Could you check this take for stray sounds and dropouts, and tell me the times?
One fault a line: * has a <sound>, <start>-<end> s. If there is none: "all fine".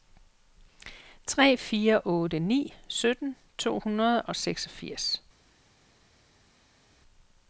all fine